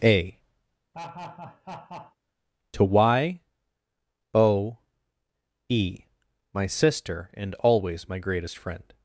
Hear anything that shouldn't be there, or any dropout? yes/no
yes